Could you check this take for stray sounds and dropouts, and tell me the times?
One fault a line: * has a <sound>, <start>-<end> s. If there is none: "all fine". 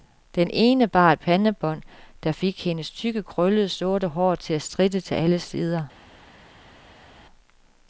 all fine